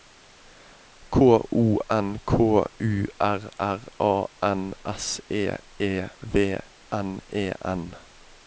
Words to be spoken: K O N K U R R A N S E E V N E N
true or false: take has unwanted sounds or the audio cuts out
false